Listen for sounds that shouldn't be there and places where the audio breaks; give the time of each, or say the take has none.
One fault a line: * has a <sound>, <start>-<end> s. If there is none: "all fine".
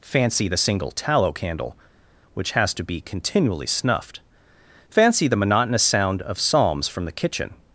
all fine